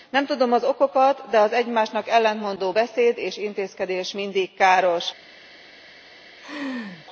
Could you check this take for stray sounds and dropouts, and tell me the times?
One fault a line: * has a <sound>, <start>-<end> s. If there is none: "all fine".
* has a laugh, 6.4-7.1 s